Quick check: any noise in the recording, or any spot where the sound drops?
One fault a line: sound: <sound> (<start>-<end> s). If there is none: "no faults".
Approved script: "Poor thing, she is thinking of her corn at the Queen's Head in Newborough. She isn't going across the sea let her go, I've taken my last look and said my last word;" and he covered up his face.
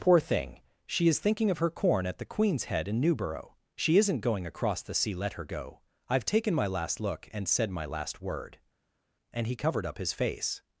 no faults